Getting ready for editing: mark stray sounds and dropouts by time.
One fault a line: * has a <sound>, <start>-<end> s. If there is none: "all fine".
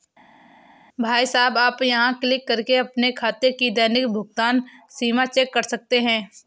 all fine